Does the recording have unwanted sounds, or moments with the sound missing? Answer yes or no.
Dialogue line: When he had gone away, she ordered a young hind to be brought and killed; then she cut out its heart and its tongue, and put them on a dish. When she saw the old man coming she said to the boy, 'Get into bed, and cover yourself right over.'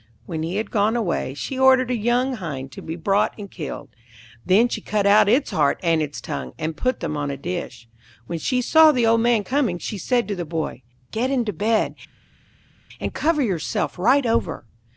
no